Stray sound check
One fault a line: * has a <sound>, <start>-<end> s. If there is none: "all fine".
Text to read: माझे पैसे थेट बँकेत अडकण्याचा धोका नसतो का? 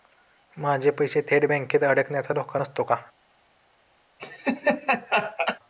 * has a laugh, 4.2-5.6 s